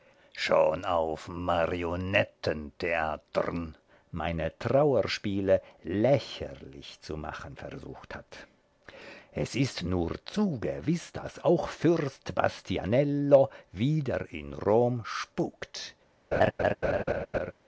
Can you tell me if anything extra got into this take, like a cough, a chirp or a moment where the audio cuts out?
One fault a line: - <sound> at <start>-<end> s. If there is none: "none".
- laugh at 16.3-17.5 s